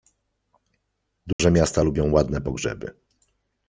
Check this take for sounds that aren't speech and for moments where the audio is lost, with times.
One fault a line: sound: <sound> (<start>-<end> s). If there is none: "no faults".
sound: dropout (1.3-1.4 s)